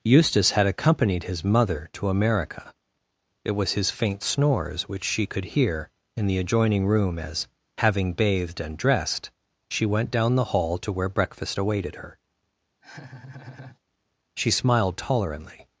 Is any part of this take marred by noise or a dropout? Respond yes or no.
yes